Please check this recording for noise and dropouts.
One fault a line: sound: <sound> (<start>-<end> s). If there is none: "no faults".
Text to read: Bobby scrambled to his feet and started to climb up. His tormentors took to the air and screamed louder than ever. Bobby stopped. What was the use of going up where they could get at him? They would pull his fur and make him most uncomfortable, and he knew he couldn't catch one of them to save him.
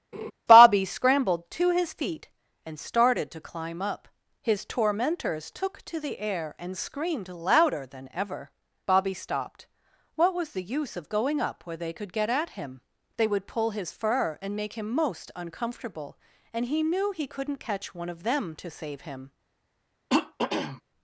sound: laugh (0.1-0.3 s)
sound: throat clearing (20.1-20.8 s)